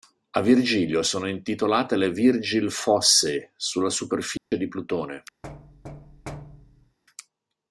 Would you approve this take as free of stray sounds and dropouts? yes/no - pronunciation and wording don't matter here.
no